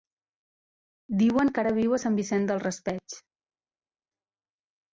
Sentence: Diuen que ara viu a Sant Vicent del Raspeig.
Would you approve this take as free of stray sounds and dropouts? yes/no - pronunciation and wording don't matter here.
yes